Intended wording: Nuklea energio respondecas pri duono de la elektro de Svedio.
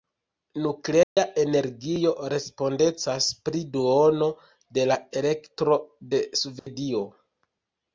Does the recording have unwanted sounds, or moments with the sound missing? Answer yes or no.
yes